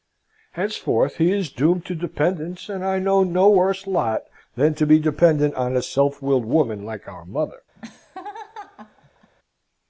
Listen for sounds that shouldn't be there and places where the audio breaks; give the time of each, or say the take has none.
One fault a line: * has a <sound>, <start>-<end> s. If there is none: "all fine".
* has a laugh, 7.8-9.3 s